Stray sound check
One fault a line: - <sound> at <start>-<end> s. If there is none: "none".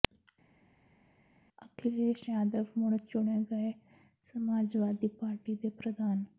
none